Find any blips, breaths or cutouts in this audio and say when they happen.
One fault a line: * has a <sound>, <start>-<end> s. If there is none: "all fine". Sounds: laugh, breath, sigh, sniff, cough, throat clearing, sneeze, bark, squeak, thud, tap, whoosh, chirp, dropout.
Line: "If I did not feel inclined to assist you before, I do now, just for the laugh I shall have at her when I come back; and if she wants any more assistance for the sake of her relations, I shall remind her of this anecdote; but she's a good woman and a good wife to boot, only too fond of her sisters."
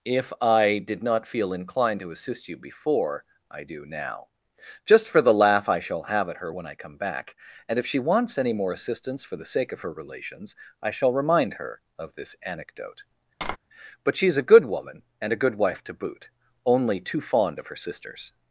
* has a tap, 13.4-13.6 s